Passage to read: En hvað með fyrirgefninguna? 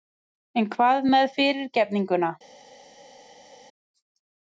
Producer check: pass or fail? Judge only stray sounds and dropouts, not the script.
pass